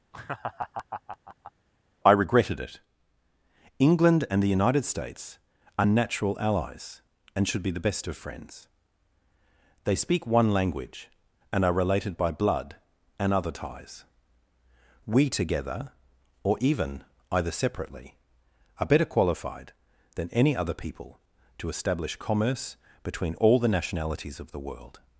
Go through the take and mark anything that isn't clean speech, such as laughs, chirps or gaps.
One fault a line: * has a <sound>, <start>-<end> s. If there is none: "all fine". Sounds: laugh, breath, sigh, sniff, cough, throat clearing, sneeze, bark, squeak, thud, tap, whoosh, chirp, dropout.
* has a laugh, 0.1-1.5 s